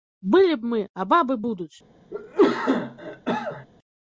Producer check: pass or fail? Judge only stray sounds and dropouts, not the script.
fail